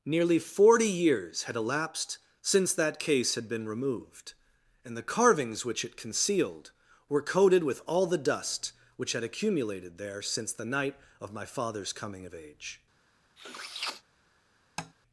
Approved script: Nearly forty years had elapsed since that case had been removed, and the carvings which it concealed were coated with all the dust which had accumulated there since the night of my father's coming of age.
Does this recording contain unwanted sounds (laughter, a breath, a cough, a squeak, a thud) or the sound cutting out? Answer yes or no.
yes